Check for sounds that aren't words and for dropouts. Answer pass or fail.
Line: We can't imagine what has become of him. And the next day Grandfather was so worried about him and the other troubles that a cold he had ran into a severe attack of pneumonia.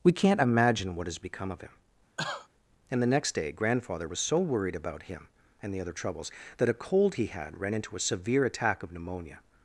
fail